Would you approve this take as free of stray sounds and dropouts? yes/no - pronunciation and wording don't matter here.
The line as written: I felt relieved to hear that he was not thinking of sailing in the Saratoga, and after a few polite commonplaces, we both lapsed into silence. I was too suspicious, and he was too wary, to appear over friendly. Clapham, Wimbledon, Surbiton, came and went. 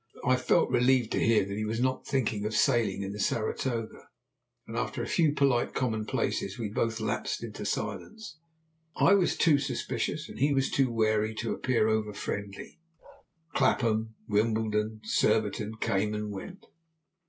no